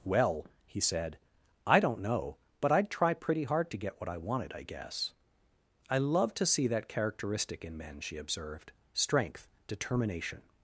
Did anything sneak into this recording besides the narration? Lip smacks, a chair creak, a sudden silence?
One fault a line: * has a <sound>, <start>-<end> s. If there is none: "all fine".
all fine